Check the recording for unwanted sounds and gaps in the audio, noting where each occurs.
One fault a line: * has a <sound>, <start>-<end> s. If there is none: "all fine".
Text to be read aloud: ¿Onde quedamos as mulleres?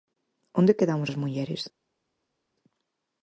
all fine